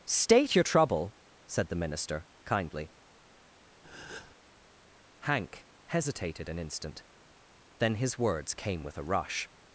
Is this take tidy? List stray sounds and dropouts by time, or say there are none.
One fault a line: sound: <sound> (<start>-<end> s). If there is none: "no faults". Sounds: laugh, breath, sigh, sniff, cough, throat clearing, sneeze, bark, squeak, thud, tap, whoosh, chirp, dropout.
sound: breath (3.8-4.3 s)